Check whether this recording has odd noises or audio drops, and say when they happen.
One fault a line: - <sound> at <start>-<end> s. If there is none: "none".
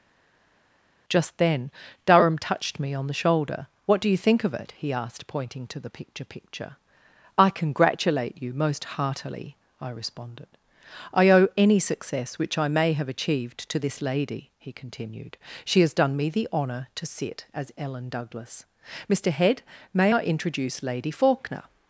none